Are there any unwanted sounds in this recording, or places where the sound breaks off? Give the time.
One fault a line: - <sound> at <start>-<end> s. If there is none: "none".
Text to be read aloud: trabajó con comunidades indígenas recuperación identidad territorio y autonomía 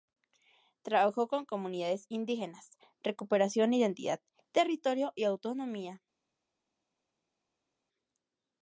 none